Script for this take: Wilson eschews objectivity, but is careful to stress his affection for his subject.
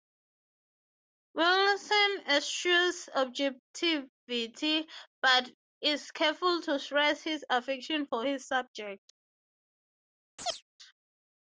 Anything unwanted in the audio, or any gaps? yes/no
yes